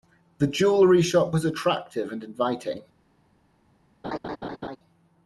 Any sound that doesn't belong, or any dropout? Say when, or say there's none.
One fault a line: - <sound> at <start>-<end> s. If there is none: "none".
- laugh at 4.0-4.8 s